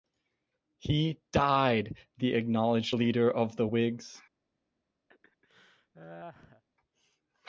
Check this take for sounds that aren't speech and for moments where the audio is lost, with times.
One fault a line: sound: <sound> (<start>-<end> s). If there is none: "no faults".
sound: laugh (5.1-6.6 s)